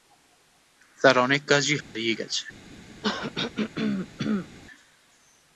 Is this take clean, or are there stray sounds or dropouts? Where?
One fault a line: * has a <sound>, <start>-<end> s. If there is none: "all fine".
* has a dropout, 1.8-2.0 s
* has a throat clearing, 3.0-4.5 s